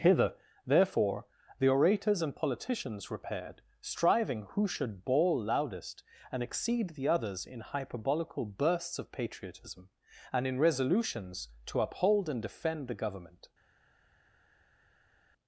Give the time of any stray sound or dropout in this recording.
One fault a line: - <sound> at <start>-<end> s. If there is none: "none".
none